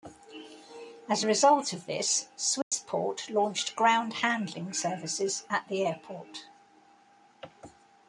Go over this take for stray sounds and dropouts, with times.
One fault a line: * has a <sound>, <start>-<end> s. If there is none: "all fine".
* has a dropout, 2.6-2.7 s